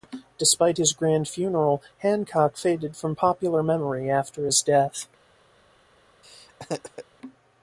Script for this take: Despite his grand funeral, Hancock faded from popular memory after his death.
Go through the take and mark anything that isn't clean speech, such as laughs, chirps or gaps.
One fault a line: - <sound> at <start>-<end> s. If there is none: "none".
- laugh at 6.2-7.0 s